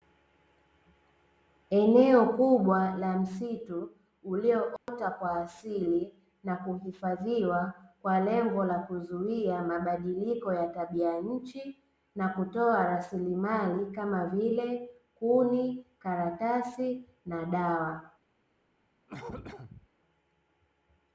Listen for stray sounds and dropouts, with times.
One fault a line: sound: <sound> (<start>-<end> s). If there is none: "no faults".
sound: dropout (4.8-4.9 s)
sound: cough (19.1-19.9 s)